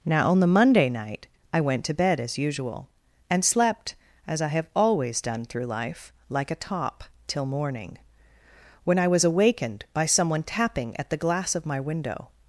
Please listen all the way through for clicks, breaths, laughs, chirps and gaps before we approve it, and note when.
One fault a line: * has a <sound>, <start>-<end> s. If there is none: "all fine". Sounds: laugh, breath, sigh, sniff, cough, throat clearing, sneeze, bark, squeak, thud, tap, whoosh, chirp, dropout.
all fine